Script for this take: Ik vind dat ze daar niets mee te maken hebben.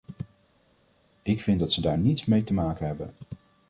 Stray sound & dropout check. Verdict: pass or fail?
pass